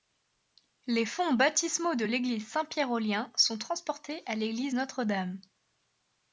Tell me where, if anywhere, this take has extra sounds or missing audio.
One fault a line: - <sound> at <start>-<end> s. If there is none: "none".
none